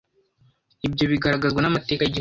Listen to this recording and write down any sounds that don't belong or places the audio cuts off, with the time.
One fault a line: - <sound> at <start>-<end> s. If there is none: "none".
none